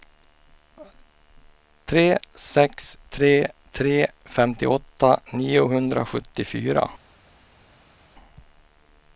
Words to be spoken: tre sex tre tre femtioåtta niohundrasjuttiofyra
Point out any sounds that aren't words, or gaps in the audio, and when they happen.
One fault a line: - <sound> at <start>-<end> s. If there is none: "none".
none